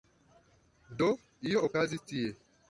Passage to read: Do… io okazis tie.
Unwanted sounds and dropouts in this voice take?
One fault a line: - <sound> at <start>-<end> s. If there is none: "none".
none